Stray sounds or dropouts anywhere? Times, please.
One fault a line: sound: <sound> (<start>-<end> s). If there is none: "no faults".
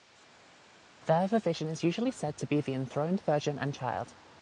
no faults